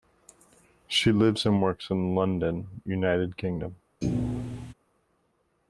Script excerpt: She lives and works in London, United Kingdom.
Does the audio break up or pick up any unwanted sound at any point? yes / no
yes